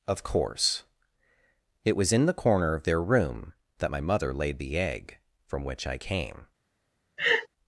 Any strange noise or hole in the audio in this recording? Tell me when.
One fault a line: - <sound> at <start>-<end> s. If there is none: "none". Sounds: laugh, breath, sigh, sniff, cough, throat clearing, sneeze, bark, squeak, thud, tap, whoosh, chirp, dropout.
- laugh at 7.2-7.5 s